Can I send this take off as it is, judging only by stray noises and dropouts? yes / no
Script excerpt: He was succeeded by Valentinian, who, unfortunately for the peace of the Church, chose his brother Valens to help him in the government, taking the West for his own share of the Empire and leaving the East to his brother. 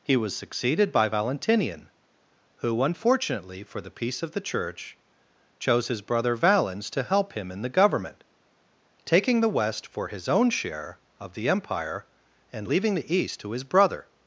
yes